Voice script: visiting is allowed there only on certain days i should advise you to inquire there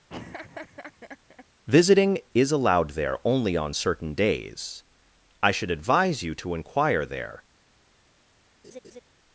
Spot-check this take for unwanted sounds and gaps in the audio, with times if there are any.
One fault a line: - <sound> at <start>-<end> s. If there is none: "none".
- laugh at 0.1-1.5 s
- laugh at 8.6-9.0 s